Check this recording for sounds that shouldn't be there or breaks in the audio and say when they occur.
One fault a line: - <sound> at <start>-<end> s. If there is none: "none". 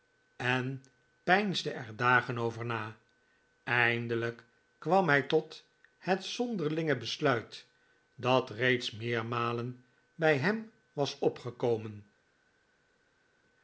none